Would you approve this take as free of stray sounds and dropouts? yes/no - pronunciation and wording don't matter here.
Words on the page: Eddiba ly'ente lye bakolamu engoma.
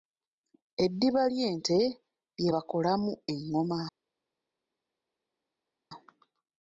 yes